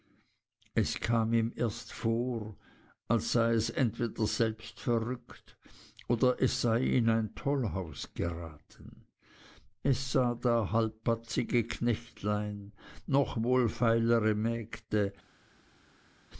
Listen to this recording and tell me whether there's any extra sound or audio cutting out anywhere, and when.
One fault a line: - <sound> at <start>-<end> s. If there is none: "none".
none